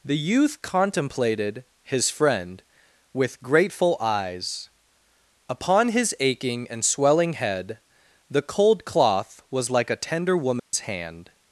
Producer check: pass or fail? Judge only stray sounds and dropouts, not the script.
fail